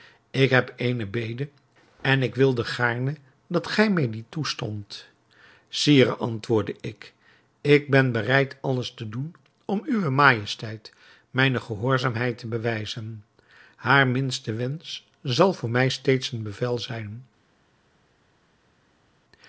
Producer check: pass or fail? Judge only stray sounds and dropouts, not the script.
pass